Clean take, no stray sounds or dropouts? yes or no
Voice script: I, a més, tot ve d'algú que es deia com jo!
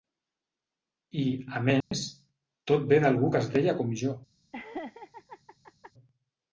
no